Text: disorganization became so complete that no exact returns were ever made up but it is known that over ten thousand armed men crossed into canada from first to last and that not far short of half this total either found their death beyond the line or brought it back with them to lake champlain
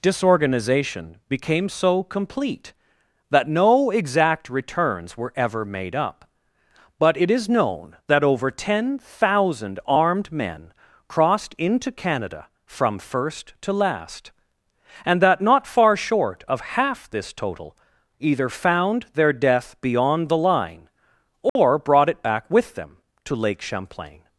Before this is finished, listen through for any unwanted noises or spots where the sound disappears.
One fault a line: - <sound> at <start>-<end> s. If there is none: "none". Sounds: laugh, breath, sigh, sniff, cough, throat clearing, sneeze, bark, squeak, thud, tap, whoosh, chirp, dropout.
- dropout at 21.5-21.6 s